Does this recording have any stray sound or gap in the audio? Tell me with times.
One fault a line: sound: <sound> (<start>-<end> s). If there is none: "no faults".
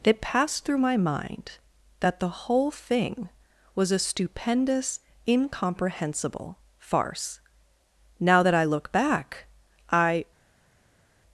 no faults